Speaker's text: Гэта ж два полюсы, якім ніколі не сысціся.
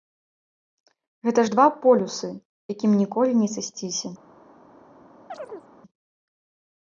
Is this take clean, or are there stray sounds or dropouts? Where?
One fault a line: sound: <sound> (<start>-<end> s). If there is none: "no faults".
sound: chirp (5.3-5.7 s)